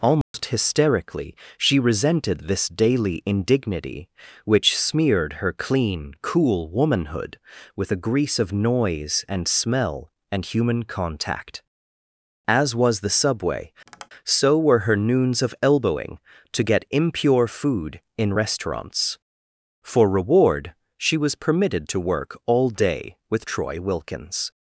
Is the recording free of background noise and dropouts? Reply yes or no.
no